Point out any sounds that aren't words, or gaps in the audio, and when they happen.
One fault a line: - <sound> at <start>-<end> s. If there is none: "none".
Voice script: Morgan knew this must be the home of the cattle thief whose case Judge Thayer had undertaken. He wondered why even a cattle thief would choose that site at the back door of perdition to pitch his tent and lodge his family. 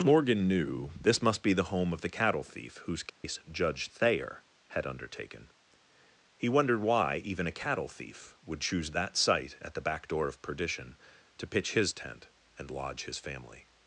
- dropout at 3.1-3.2 s